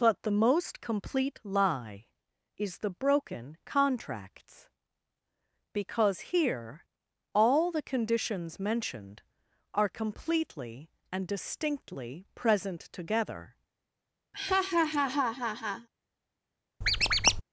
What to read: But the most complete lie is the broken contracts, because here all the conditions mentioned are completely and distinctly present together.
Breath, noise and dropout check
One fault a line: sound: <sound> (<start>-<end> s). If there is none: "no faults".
sound: laugh (14.3-15.9 s)
sound: squeak (16.8-17.4 s)